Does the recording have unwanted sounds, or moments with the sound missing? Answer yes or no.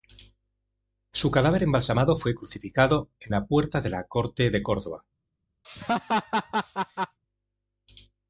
yes